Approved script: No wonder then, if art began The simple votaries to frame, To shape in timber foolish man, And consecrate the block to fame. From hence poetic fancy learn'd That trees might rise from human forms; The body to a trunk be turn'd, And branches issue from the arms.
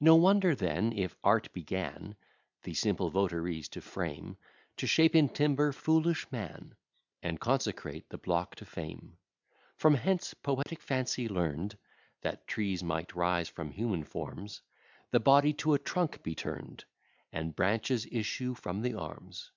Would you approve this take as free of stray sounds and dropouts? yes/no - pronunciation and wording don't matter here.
no